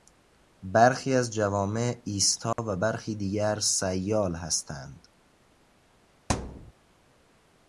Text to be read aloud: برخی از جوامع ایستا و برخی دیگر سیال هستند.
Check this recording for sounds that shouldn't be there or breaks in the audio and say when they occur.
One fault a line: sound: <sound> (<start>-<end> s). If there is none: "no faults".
sound: dropout (2.5-2.6 s)
sound: thud (6.3-6.7 s)